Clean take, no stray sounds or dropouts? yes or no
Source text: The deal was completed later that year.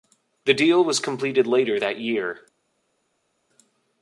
yes